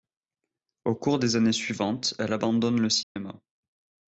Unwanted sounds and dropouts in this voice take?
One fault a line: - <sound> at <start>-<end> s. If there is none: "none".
- dropout at 3.0-3.2 s